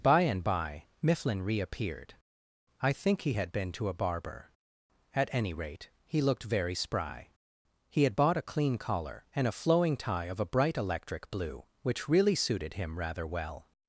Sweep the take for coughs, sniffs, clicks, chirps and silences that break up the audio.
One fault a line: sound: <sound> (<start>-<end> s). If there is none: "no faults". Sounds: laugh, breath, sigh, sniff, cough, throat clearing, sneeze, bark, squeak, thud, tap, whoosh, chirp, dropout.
no faults